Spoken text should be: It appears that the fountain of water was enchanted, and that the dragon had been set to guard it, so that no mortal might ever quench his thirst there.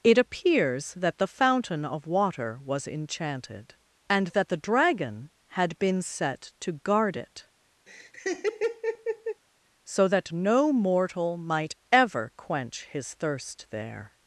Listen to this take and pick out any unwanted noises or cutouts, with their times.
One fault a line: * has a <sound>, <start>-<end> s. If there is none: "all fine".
* has a laugh, 7.9-9.4 s